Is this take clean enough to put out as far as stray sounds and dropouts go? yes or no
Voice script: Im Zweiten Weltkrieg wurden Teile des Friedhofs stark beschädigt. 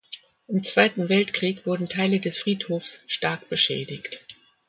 yes